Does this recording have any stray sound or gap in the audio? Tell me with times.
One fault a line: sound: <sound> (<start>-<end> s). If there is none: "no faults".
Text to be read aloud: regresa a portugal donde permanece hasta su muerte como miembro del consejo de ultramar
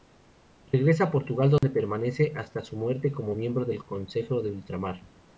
sound: dropout (1.6-1.6 s)